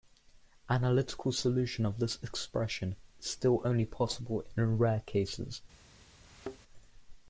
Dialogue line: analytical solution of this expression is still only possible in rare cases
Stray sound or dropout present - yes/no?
yes